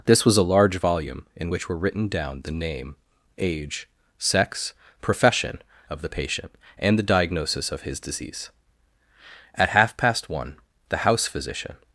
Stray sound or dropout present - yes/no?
no